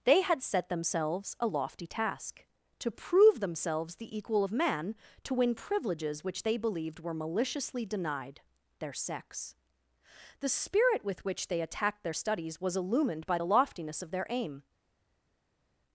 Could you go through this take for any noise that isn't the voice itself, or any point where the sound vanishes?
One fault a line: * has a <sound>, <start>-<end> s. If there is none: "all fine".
all fine